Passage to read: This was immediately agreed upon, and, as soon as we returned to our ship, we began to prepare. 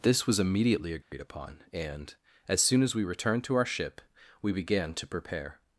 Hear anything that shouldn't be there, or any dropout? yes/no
yes